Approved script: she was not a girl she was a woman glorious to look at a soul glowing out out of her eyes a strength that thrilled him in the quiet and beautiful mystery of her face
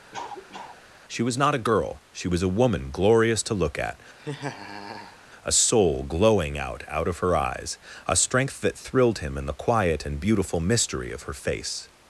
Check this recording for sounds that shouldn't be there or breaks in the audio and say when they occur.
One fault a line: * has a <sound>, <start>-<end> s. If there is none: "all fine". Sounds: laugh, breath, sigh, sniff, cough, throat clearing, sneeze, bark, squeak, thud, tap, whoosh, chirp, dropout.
* has a cough, 0.1-0.8 s
* has a laugh, 4.2-5.2 s